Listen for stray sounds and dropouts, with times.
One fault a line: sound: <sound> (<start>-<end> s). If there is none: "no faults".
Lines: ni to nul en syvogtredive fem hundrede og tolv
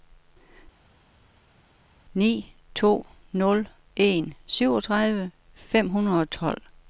no faults